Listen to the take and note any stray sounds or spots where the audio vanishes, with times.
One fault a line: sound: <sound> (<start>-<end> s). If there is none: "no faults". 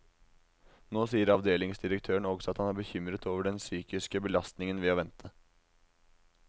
no faults